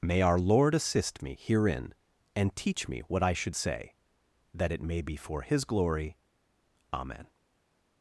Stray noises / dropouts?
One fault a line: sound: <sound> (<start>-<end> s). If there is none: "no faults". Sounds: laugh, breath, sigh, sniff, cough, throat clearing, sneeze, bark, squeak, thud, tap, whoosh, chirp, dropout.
no faults